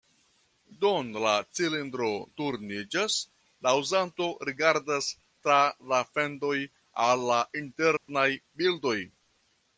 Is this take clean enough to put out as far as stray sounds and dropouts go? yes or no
no